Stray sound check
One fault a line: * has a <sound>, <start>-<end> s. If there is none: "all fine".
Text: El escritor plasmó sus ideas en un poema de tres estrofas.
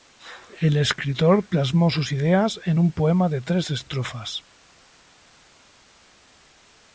all fine